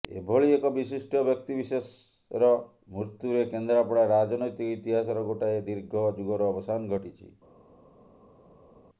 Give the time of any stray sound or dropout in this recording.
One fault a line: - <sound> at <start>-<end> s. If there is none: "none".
none